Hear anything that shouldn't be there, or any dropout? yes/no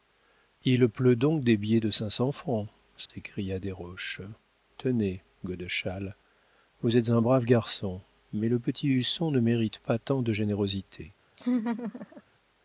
yes